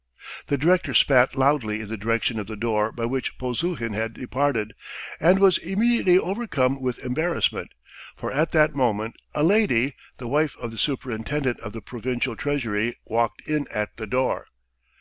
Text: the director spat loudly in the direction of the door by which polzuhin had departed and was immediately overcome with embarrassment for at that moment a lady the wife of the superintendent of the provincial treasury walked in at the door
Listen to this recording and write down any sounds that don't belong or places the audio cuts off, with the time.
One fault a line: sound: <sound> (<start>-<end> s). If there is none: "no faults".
no faults